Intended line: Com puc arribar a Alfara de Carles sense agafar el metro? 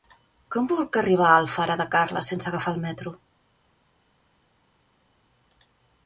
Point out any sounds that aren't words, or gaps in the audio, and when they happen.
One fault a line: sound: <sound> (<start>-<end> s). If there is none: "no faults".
no faults